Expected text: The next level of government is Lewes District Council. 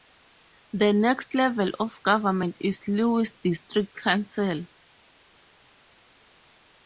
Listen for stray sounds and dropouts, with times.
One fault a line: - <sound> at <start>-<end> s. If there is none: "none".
none